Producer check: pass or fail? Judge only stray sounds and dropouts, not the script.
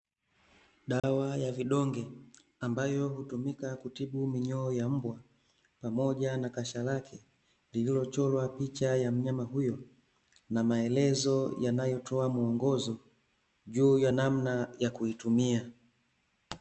fail